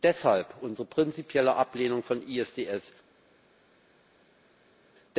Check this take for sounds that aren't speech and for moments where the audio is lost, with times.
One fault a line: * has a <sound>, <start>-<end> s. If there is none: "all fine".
all fine